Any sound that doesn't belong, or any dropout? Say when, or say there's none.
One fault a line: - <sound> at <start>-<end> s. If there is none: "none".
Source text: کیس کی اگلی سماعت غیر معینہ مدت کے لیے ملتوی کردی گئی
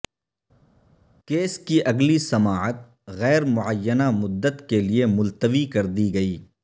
none